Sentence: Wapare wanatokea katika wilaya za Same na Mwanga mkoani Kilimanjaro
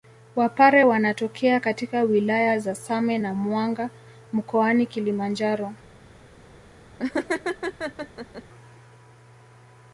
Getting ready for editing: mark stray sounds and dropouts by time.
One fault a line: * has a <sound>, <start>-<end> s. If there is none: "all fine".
* has a laugh, 7.0-8.4 s